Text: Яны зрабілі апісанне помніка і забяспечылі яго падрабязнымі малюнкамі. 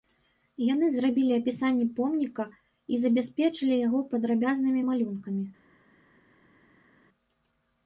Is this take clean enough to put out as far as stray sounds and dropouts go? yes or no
yes